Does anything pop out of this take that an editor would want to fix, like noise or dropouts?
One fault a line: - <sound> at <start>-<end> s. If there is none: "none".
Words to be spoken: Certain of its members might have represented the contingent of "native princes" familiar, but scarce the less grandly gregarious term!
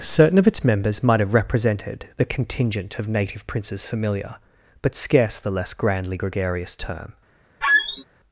- squeak at 7.6-8.0 s